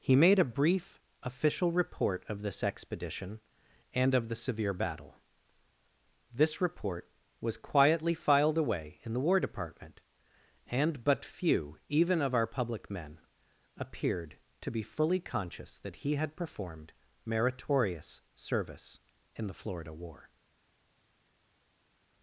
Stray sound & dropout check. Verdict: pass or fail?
pass